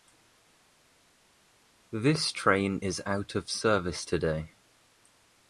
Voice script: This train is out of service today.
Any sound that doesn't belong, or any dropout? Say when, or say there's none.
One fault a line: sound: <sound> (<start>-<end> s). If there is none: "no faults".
no faults